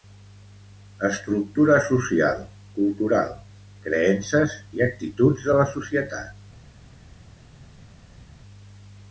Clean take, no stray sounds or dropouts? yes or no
yes